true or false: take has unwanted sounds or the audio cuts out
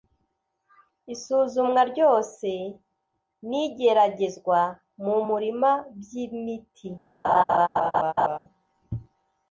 true